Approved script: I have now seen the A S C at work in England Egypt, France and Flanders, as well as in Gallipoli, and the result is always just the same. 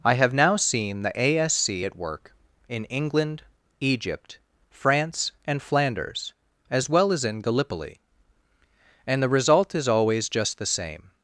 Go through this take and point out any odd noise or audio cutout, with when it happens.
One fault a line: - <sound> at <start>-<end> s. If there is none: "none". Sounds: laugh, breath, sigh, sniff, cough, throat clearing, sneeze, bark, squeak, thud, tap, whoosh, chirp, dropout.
none